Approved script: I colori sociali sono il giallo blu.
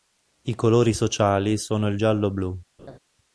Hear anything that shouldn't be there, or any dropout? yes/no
yes